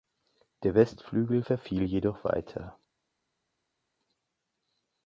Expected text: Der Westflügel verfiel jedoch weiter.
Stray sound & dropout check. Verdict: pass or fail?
pass